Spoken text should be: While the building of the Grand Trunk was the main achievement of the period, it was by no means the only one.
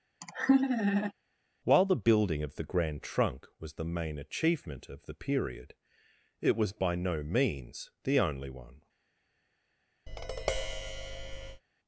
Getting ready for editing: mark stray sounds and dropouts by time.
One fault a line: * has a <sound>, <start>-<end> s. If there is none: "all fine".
* has a laugh, 0.2-1.1 s
* has a tap, 10.1-11.6 s